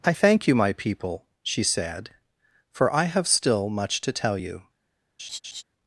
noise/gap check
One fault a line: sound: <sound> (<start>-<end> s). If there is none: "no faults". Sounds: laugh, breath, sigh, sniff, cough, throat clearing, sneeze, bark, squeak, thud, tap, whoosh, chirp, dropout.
sound: laugh (5.2-5.6 s)